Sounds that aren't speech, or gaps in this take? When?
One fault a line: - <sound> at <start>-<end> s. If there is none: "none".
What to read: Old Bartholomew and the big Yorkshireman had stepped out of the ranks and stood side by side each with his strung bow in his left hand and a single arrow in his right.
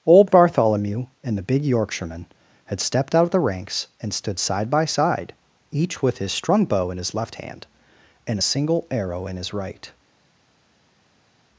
none